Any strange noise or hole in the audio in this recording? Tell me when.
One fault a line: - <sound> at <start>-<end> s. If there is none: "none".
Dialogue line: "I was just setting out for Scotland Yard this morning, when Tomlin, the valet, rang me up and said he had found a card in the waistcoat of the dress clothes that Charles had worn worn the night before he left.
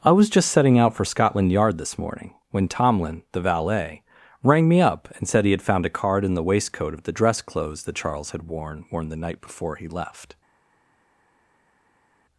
none